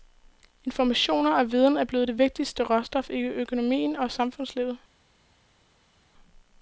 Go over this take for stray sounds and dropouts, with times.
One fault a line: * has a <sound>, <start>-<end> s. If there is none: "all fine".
all fine